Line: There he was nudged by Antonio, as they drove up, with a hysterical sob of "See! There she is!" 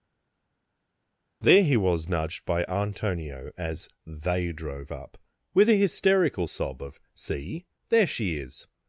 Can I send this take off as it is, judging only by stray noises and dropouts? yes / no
yes